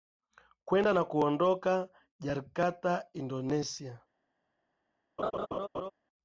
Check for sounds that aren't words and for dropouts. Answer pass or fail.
fail